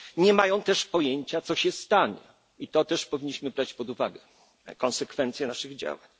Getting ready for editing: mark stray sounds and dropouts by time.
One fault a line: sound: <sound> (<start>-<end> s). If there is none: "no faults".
no faults